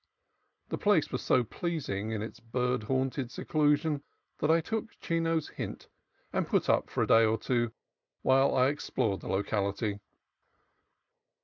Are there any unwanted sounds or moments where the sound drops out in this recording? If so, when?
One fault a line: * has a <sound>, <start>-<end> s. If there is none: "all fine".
all fine